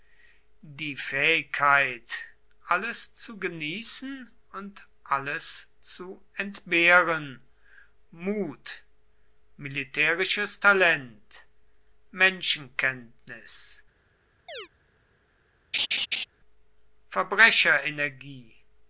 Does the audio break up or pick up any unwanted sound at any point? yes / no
yes